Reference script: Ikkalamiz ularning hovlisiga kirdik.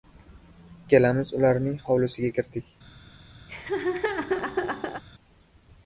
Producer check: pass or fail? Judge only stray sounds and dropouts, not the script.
fail